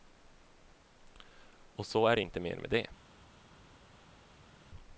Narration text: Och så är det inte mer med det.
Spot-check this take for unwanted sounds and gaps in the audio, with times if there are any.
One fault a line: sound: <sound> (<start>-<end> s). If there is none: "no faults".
no faults